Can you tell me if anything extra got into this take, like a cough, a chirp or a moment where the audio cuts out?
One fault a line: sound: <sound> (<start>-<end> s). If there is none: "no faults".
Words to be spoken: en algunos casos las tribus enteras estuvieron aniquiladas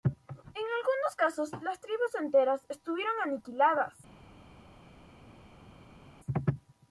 no faults